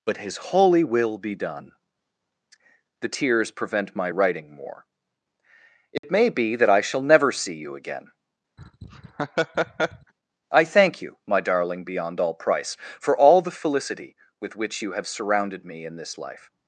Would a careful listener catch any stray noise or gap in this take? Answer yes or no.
yes